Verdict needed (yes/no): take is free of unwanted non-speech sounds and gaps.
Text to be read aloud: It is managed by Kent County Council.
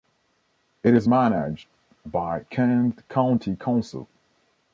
yes